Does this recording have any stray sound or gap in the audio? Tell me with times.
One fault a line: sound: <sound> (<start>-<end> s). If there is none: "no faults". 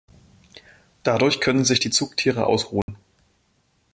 sound: dropout (2.8-2.9 s)